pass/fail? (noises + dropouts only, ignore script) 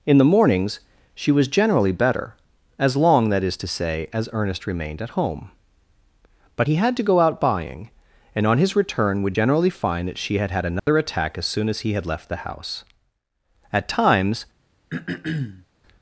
fail